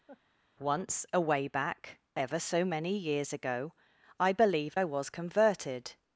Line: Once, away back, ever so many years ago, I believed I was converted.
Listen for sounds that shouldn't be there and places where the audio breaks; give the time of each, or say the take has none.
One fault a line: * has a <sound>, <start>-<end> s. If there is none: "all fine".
* has a laugh, 0.1-0.2 s